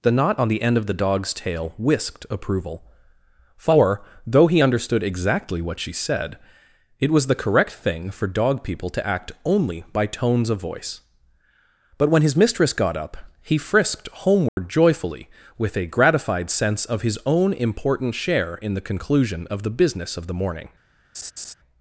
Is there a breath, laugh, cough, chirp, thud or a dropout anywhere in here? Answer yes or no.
yes